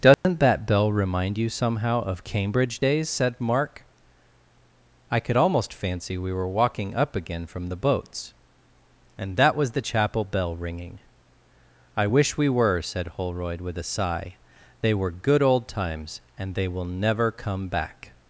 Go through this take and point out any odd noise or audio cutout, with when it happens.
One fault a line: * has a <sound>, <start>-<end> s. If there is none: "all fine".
* has a dropout, 0.1-0.2 s